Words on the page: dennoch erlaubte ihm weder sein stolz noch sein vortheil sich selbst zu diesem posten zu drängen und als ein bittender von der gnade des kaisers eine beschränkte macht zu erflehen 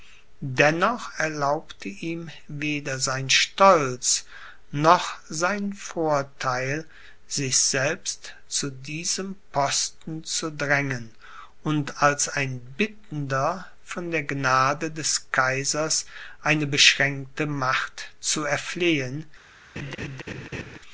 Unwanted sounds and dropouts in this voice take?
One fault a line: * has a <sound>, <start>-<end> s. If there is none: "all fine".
* has a laugh, 19.8-20.8 s